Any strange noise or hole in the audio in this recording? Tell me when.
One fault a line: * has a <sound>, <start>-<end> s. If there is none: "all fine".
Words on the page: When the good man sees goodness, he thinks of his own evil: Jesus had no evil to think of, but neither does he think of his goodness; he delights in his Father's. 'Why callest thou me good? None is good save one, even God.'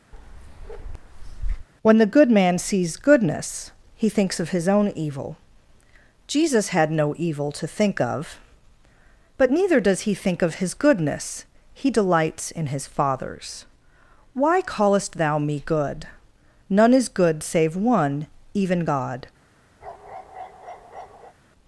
* has a bark, 0.1-1.7 s
* has a bark, 19.8-21.3 s